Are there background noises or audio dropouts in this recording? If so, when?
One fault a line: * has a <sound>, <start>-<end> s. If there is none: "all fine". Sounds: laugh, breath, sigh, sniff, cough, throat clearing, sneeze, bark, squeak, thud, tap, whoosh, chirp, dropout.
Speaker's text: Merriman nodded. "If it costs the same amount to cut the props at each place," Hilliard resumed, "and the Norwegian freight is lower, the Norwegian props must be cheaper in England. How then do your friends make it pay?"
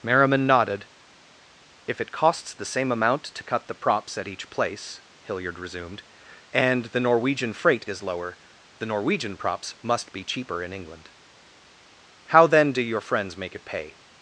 all fine